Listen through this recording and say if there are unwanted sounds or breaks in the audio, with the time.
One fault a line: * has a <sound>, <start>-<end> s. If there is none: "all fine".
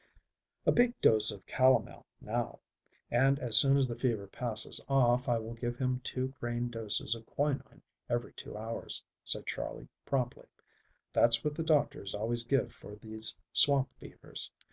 all fine